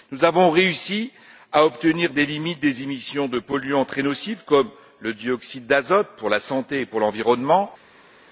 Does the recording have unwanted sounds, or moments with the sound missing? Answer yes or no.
no